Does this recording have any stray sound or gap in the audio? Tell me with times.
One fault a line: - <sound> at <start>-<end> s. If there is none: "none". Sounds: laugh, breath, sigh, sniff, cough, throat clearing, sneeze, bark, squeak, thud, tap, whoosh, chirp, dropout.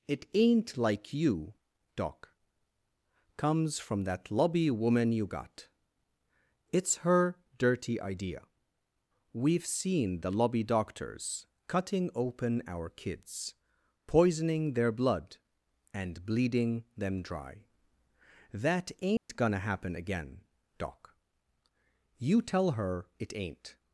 - dropout at 19.2-19.3 s